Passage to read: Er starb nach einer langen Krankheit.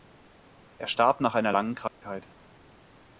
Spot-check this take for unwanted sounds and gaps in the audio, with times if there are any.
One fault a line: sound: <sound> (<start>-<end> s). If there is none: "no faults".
sound: dropout (1.9-2.0 s)